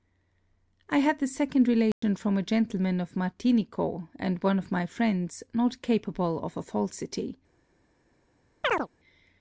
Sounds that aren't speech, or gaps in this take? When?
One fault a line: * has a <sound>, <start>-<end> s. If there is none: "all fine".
* has a dropout, 1.9-2.0 s
* has a chirp, 8.6-8.9 s